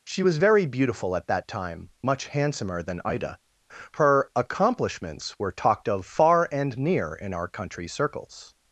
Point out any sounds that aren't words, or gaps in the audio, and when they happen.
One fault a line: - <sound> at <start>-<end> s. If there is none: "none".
none